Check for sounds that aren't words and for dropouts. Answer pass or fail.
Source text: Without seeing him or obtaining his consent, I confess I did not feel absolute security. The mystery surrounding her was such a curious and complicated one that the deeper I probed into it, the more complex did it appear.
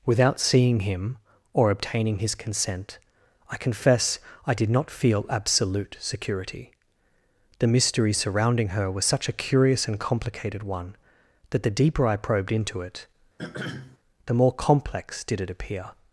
fail